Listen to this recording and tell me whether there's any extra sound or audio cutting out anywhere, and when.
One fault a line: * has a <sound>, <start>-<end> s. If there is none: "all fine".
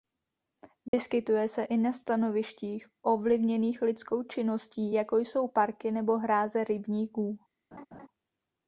* has a dropout, 0.9-0.9 s
* has a laugh, 7.7-8.1 s